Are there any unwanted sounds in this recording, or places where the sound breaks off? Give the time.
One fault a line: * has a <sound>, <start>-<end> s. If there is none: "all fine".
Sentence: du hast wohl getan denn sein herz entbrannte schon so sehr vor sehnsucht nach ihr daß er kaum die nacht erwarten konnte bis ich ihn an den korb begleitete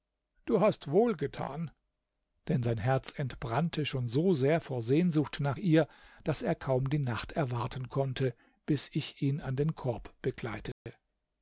* has a dropout, 10.7-10.9 s